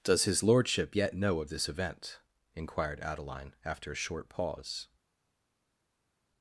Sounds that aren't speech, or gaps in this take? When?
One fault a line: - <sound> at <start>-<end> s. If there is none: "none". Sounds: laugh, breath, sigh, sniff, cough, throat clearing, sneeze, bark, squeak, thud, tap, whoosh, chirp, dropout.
none